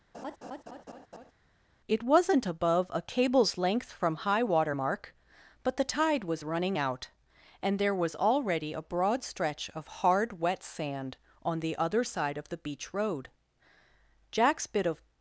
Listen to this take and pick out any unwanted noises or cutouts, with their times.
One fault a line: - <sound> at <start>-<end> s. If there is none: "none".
- laugh at 0.1-1.3 s